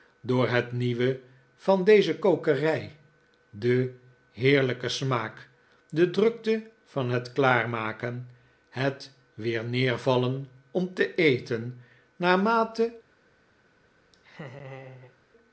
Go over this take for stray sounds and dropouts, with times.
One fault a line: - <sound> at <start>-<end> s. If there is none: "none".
- laugh at 14.1-15.2 s